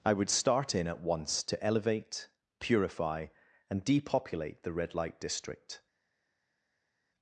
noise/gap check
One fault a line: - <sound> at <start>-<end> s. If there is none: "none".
none